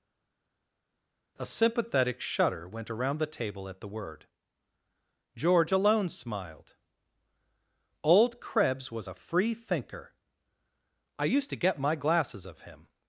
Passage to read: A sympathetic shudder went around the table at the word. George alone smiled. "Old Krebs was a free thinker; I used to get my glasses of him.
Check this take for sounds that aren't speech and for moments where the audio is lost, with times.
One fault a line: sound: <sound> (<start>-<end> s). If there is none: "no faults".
no faults